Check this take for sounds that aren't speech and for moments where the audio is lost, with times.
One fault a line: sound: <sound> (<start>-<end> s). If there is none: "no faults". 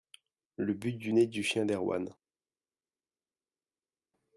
no faults